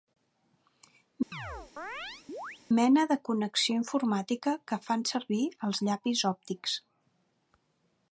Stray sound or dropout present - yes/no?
yes